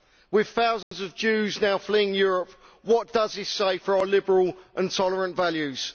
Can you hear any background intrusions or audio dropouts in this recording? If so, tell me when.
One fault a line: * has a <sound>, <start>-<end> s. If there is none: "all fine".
* has a dropout, 0.8-0.9 s